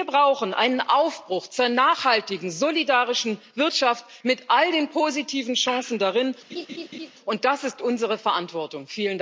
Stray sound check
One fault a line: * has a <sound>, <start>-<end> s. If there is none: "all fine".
* has a laugh, 6.5-7.1 s